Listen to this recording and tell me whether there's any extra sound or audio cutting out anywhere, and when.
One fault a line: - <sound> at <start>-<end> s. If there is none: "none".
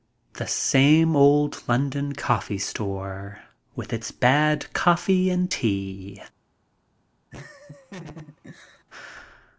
- laugh at 7.3-8.8 s